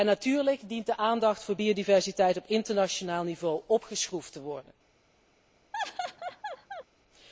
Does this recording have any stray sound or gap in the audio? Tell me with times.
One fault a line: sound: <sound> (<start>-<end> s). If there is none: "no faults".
sound: laugh (5.7-6.8 s)